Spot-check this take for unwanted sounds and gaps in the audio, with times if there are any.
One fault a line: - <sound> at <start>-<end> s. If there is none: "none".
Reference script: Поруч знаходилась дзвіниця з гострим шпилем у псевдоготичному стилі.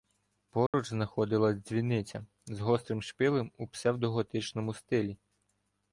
- dropout at 0.7-0.7 s